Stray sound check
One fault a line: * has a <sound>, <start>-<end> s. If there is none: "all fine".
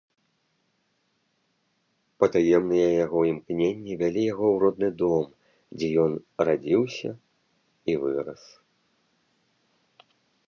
all fine